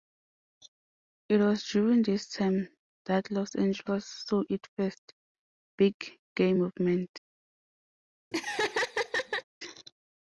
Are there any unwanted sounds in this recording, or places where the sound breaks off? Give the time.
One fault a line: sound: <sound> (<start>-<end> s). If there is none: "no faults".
sound: laugh (8.3-9.4 s)